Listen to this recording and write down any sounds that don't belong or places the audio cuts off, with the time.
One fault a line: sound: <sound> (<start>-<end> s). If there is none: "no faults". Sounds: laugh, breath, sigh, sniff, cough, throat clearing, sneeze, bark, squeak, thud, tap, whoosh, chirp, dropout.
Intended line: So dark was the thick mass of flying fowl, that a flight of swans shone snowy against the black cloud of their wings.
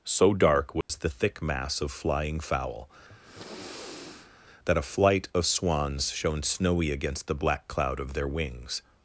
sound: dropout (0.8-0.9 s)
sound: sniff (3.1-4.3 s)